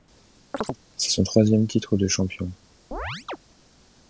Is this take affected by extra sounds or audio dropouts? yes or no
yes